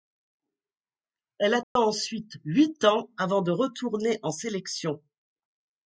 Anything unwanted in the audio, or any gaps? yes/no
yes